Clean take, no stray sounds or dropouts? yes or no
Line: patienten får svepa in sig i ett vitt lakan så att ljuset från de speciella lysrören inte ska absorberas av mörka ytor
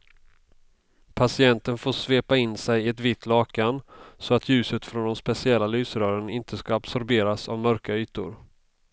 yes